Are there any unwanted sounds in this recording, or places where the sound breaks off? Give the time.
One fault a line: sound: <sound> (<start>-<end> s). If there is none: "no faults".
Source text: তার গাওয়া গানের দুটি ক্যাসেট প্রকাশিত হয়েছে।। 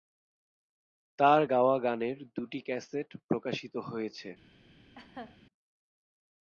sound: laugh (5.0-5.4 s)